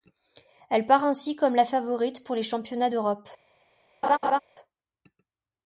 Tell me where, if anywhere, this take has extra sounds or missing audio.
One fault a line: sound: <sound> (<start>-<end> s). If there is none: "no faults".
sound: laugh (4.0-4.4 s)